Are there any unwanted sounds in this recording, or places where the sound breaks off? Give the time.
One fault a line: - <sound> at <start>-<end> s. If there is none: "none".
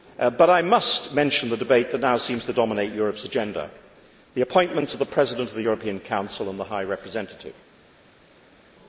none